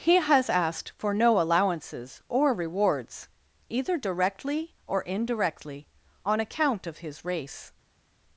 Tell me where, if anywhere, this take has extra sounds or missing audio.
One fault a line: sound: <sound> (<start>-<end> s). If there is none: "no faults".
no faults